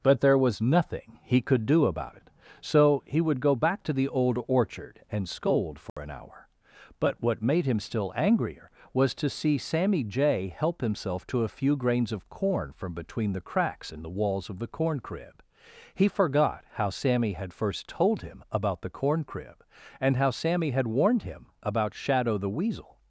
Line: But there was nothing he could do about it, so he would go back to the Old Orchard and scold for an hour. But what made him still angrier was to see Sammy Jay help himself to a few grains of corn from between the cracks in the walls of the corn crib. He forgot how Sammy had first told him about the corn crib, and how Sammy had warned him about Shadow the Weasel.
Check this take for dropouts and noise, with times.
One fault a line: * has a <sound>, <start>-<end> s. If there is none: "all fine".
* has a dropout, 5.9-6.0 s